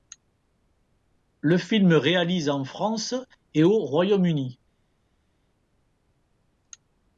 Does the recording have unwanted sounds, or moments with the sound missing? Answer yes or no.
no